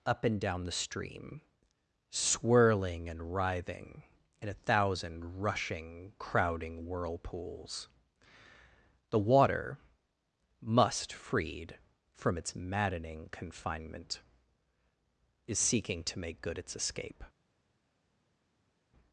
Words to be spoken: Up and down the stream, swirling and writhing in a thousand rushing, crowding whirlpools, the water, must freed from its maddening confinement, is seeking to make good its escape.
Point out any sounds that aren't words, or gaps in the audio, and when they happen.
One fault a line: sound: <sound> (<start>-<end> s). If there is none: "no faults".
no faults